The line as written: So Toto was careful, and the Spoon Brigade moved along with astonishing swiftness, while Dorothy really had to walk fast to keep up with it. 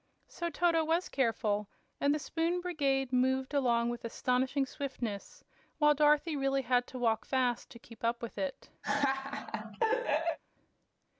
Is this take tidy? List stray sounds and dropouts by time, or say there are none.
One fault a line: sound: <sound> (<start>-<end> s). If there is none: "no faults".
sound: laugh (8.8-10.4 s)